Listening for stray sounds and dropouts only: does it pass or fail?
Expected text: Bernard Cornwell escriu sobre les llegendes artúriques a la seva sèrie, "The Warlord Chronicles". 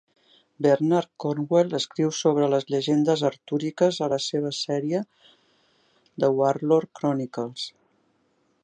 pass